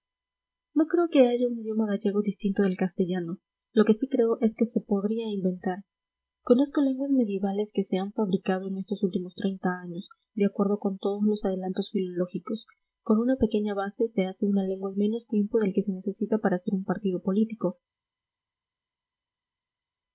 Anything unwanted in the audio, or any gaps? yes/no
no